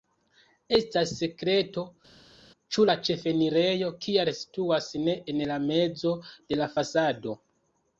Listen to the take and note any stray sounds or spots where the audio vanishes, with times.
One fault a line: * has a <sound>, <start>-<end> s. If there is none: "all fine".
all fine